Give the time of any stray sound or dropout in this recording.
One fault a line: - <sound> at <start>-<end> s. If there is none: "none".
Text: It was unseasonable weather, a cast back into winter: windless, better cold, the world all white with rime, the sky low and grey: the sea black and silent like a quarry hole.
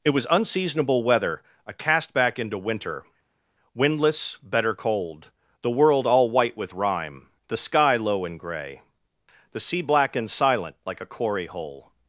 none